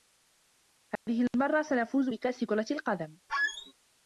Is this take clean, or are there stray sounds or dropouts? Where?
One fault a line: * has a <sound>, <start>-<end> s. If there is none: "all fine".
* has a dropout, 1.0-1.1 s
* has a squeak, 3.3-3.7 s